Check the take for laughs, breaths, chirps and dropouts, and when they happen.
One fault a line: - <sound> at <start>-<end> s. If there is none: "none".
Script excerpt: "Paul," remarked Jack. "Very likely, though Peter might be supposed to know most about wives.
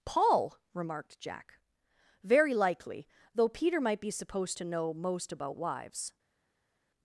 none